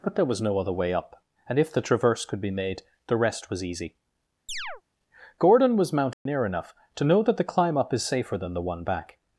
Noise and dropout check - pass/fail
fail